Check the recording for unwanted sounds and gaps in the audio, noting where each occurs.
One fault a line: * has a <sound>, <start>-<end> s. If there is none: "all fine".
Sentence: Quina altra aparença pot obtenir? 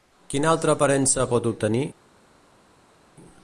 all fine